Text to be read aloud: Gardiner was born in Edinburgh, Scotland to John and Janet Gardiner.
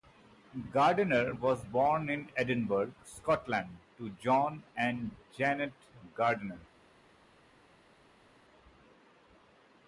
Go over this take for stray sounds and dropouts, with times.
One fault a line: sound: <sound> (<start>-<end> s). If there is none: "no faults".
no faults